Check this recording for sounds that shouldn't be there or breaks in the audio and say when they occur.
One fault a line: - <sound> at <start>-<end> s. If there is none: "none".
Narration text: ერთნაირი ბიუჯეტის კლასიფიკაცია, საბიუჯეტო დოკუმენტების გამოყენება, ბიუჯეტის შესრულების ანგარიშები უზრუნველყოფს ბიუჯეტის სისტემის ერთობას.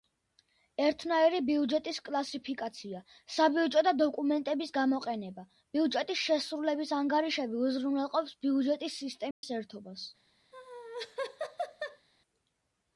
- dropout at 9.3-9.4 s
- laugh at 10.5-12.1 s